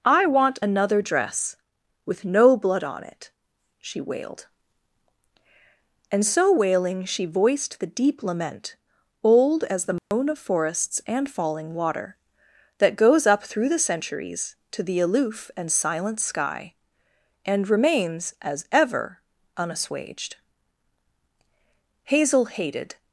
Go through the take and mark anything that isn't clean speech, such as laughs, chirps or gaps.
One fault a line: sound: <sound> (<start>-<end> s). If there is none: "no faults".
sound: dropout (10.0-10.1 s)